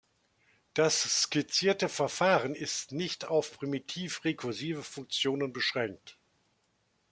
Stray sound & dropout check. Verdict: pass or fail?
pass